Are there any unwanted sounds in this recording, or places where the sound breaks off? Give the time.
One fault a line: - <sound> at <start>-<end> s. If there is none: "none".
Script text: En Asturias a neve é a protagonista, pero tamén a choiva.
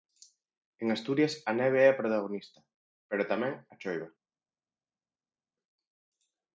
none